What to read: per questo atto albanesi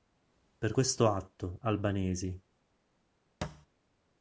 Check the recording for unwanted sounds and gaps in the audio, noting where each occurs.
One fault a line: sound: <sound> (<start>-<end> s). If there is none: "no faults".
sound: thud (3.4-3.7 s)